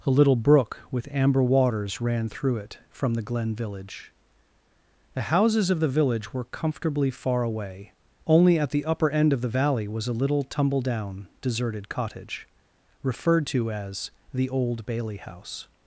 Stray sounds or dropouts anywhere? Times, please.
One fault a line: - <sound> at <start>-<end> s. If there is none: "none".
none